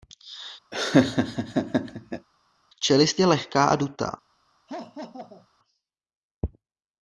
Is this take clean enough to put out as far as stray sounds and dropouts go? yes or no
no